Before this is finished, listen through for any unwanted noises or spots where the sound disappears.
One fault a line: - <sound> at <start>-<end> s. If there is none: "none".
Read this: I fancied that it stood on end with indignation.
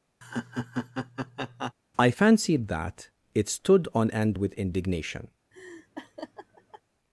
- laugh at 0.2-1.7 s
- laugh at 5.5-6.8 s